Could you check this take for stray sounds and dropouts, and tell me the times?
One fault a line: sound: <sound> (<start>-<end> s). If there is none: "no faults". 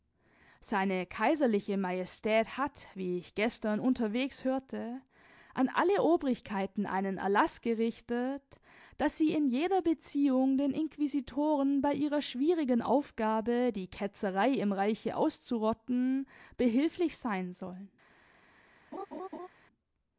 sound: laugh (18.9-19.5 s)